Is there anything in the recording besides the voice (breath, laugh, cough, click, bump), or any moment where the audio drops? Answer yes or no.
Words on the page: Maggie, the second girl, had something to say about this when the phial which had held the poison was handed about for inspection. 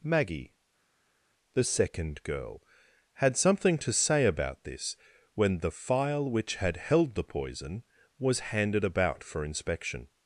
no